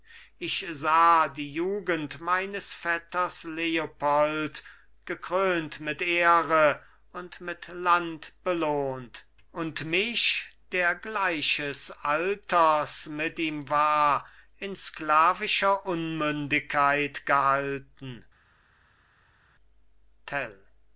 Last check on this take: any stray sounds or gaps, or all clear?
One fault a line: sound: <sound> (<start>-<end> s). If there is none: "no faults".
no faults